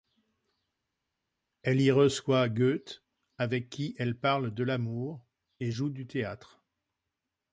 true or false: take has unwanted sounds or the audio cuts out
false